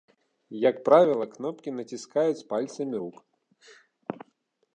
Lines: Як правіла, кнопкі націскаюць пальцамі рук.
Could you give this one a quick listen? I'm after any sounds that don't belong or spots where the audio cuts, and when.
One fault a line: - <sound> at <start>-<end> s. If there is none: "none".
none